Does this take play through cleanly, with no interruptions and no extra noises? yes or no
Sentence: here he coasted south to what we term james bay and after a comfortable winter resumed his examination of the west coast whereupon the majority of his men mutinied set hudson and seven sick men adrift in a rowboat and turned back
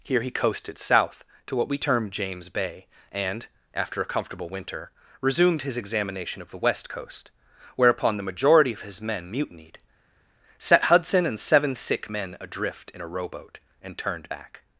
yes